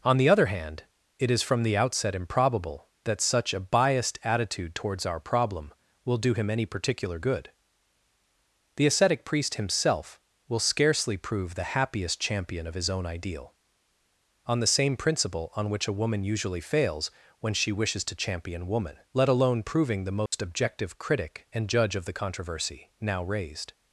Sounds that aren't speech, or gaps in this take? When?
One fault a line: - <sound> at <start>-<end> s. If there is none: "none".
- dropout at 20.3-20.3 s